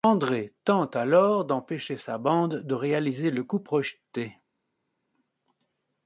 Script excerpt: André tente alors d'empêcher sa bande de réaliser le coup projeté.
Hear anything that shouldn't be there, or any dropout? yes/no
no